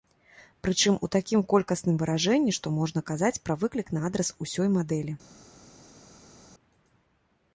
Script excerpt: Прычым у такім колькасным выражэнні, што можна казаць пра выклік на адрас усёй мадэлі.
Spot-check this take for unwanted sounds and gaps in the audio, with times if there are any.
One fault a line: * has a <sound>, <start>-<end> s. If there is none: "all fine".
all fine